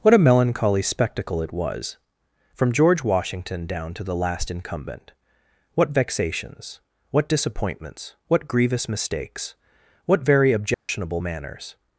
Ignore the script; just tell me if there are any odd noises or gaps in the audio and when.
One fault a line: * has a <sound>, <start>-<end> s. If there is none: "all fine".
* has a dropout, 10.7-10.9 s